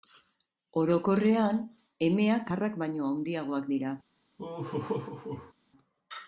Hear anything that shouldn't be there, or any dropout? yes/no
yes